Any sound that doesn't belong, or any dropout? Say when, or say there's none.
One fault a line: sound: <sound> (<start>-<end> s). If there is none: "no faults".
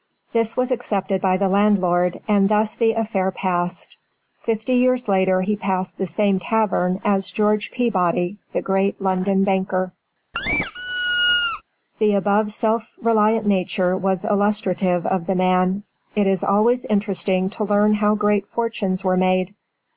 sound: squeak (10.3-11.6 s)